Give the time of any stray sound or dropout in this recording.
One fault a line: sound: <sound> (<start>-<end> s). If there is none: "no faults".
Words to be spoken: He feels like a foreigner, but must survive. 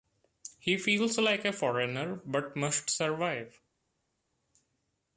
no faults